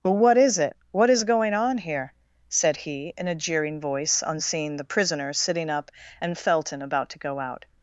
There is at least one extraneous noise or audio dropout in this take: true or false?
false